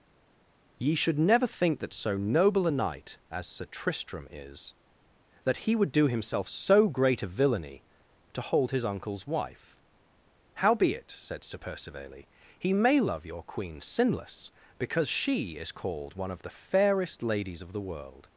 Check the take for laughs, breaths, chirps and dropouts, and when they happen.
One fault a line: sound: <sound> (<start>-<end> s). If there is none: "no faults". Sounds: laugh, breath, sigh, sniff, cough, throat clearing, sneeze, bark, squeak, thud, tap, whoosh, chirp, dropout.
no faults